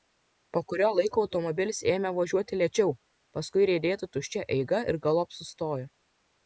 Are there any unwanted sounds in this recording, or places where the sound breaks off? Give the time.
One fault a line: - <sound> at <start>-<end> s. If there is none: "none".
none